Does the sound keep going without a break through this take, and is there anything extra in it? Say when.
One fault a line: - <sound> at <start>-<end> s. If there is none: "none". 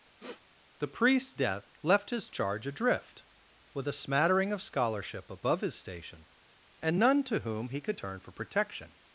- sniff at 0.2-0.4 s